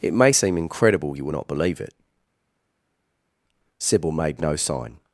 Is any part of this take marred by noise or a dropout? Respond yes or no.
no